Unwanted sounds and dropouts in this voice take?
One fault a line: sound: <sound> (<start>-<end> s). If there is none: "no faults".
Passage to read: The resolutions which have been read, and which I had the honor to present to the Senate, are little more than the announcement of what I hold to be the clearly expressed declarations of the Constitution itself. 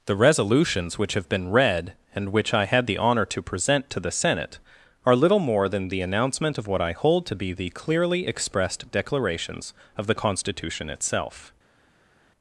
no faults